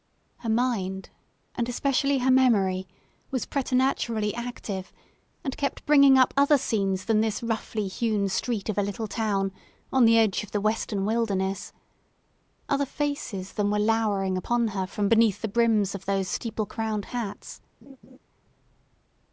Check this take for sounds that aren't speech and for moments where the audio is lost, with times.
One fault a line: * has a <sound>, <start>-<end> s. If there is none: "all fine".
* has a laugh, 17.8-18.2 s